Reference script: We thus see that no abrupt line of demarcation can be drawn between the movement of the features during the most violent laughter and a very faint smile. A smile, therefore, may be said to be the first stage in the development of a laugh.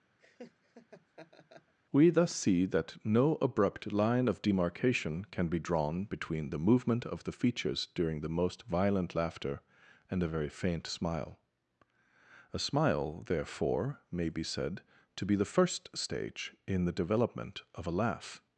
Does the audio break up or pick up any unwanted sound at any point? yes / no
yes